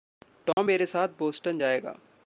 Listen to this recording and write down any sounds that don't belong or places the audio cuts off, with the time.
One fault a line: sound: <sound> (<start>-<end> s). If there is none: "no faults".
sound: dropout (0.5-0.6 s)